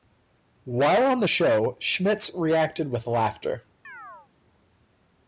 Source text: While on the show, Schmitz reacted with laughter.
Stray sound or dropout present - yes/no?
yes